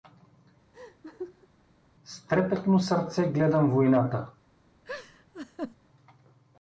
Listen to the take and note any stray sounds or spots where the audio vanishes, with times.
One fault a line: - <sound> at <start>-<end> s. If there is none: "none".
- laugh at 0.7-1.5 s
- laugh at 4.8-5.8 s